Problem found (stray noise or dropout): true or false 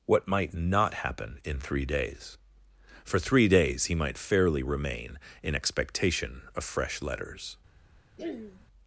true